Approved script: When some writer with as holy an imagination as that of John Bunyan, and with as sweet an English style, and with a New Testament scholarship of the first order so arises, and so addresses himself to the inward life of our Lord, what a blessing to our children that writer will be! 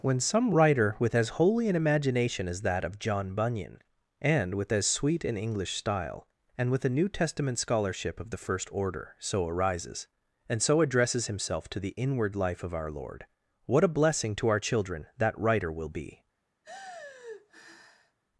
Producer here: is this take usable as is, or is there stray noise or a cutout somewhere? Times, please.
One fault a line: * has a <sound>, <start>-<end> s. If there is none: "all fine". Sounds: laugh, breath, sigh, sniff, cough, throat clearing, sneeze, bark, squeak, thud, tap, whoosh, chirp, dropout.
* has a sigh, 16.6-18.2 s